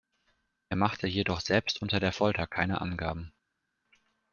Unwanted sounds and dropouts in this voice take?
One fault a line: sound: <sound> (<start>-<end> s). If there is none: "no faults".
no faults